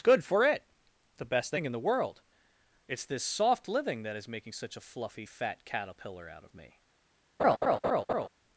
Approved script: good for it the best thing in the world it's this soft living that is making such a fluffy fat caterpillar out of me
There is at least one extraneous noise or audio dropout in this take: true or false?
true